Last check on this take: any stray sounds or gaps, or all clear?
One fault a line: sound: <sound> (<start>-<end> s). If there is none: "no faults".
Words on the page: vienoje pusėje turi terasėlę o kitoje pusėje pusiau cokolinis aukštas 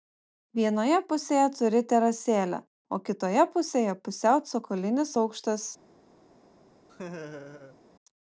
sound: laugh (6.9-7.8 s)